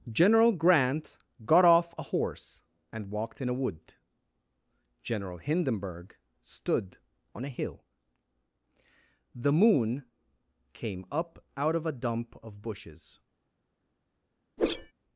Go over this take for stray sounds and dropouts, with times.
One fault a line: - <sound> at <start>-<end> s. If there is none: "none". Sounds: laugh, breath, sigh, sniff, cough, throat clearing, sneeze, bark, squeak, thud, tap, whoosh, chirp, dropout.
- whoosh at 14.6-14.9 s